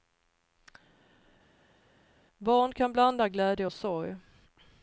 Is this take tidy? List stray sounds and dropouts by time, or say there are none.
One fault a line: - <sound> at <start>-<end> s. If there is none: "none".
none